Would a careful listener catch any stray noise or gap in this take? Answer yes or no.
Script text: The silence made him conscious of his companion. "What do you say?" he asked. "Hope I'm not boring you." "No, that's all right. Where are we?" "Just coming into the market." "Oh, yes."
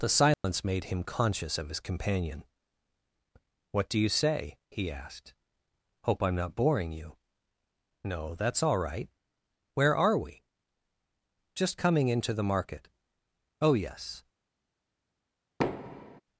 yes